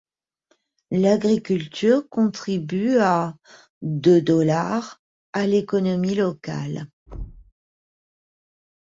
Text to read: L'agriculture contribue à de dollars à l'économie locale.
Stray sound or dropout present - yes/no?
yes